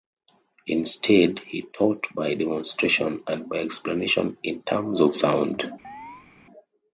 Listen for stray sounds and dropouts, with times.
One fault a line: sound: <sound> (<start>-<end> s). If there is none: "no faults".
sound: chirp (5.8-6.3 s)